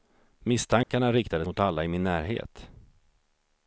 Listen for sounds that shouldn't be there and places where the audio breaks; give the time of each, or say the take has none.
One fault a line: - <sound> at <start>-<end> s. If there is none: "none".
- dropout at 0.8-0.9 s